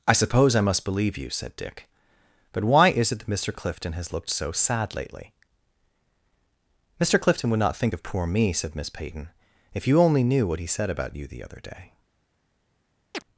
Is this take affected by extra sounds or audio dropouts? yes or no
yes